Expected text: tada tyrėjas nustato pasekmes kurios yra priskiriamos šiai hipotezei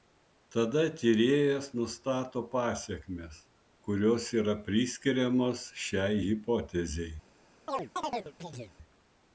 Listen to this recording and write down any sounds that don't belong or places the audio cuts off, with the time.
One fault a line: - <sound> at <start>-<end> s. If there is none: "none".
- chirp at 7.7-8.8 s